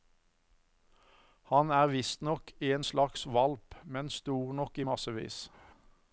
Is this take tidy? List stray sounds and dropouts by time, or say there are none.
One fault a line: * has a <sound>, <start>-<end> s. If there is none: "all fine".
all fine